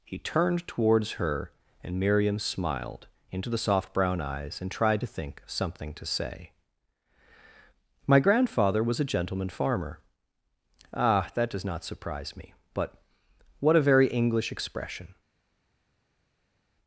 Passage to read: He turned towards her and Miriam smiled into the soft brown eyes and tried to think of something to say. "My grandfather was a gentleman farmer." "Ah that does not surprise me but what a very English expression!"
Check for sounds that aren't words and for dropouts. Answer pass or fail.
pass